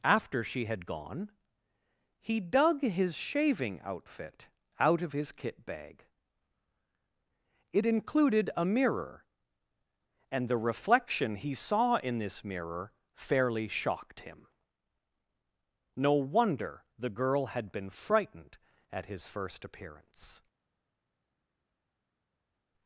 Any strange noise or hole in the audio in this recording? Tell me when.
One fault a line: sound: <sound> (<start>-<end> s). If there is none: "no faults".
no faults